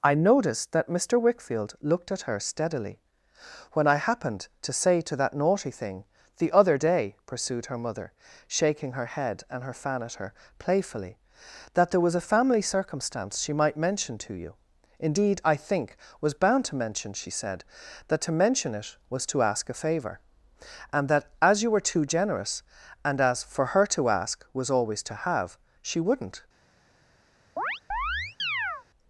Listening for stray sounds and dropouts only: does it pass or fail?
fail